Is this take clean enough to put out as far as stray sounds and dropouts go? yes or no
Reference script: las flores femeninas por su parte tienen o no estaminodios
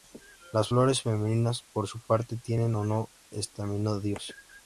yes